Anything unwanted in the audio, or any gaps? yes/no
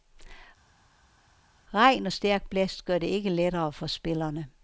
no